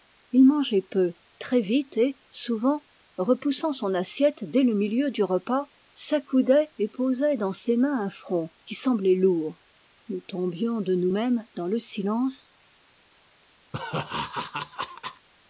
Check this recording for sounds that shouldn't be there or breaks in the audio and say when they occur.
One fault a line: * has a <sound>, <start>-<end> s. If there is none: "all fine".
* has a laugh, 13.7-15.3 s